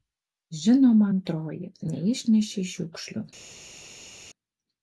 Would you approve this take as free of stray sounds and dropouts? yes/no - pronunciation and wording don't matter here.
yes